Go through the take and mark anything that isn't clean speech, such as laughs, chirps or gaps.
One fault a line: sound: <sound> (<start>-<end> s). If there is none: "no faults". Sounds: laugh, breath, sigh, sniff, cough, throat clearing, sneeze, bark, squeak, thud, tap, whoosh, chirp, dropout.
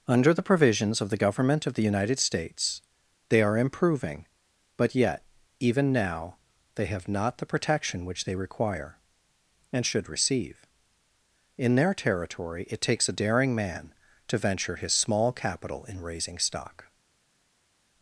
no faults